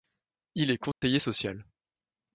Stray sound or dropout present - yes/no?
yes